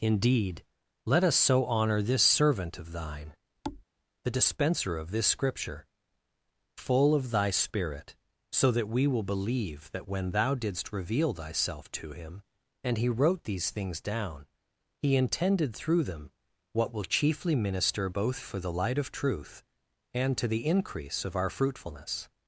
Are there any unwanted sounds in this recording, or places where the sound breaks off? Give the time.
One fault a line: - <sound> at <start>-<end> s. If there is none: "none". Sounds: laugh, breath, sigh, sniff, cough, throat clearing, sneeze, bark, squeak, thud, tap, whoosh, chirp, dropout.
- thud at 3.6-3.8 s